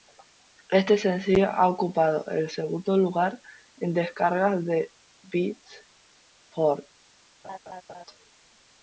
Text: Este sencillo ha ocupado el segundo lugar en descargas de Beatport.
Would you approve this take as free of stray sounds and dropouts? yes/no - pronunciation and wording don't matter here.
no